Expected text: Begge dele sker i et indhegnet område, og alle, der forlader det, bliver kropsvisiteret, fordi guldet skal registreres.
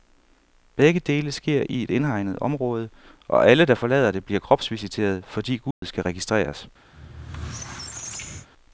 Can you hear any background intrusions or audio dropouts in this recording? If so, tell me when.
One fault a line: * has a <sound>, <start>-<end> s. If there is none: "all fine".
* has a dropout, 5.7-5.8 s
* has a squeak, 6.9-8.5 s